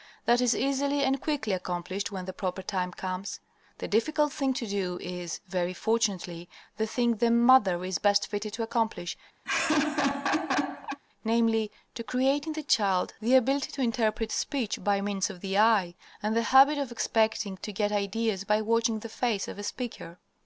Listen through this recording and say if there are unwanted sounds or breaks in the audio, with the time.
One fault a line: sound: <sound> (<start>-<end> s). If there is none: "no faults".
sound: laugh (9.4-11.0 s)